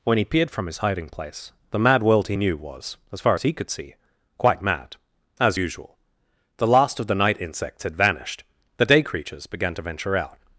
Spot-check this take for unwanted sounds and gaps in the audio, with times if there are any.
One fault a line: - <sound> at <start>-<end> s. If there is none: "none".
none